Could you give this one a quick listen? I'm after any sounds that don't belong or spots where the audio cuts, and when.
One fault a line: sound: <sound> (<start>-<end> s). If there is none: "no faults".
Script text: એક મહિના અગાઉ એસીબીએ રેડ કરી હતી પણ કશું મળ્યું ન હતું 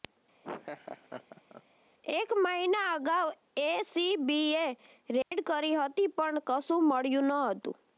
sound: laugh (0.4-1.6 s)
sound: dropout (5.2-5.3 s)